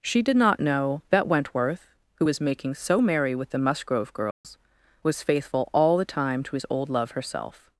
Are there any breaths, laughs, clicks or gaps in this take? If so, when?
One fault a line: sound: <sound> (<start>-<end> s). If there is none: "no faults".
sound: dropout (4.3-4.4 s)